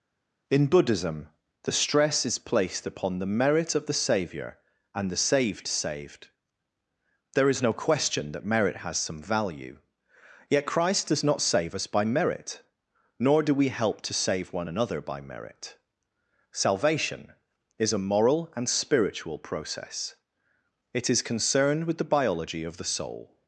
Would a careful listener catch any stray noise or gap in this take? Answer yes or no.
no